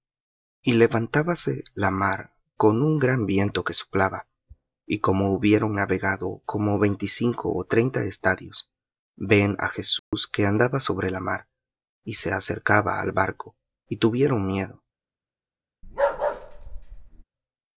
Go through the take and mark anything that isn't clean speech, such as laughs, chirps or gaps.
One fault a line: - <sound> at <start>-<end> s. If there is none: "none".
- dropout at 10.0-10.1 s
- bark at 15.8-17.2 s